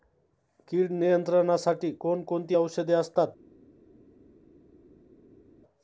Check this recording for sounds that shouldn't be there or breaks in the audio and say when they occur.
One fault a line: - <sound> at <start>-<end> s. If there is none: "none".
none